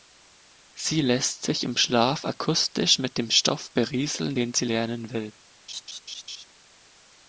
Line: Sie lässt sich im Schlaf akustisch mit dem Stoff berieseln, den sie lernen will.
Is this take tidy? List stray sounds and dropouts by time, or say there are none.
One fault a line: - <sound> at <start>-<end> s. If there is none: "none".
- laugh at 5.7-6.4 s